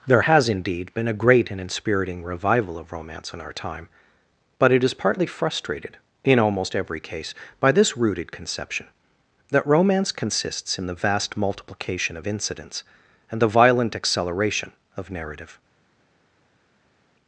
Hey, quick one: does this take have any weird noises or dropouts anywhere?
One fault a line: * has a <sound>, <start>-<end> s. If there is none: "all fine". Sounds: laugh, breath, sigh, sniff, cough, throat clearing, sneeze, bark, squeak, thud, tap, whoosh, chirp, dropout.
all fine